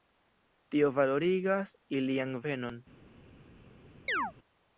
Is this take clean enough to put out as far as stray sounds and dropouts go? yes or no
no